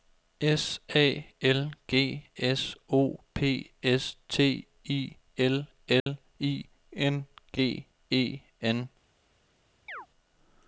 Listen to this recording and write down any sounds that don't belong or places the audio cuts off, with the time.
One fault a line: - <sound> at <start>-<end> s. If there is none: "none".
- dropout at 6.0-6.1 s
- chirp at 9.9-10.1 s